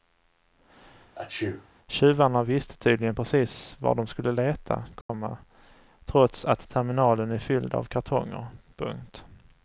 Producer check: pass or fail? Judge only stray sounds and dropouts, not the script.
fail